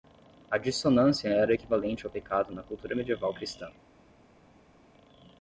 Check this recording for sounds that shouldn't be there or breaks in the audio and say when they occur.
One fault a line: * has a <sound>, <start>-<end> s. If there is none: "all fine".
all fine